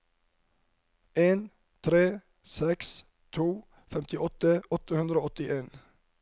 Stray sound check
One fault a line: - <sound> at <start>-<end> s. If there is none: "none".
none